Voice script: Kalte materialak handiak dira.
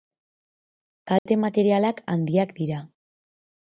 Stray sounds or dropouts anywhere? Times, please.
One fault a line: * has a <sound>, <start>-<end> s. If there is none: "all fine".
* has a dropout, 1.2-1.3 s